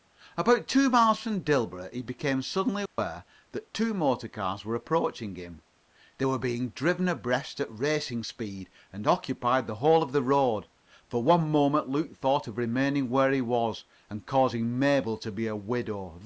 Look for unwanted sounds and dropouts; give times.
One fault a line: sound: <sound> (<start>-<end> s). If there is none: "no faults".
sound: dropout (2.9-3.0 s)